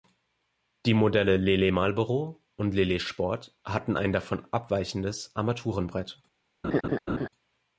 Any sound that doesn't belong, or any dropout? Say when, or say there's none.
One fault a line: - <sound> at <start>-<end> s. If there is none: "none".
- laugh at 6.6-7.3 s